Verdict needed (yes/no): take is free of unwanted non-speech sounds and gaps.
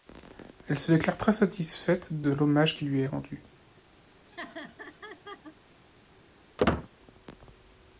no